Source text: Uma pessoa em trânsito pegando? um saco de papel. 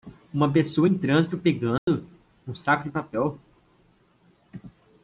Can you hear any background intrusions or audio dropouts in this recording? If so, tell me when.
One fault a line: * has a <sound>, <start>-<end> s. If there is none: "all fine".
* has a dropout, 1.8-1.9 s